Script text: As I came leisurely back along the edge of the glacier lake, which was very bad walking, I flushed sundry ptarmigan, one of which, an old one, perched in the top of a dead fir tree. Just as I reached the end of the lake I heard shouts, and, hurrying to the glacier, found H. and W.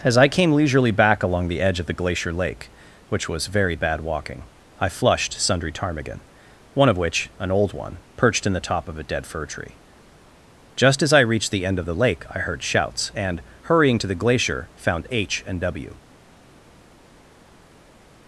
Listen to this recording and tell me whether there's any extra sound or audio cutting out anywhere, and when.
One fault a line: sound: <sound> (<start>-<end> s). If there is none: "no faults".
no faults